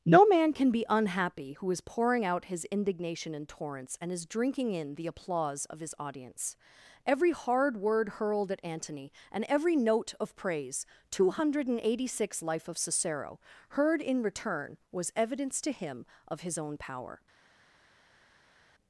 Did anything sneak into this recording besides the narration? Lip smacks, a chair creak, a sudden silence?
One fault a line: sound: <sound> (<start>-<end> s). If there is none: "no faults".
no faults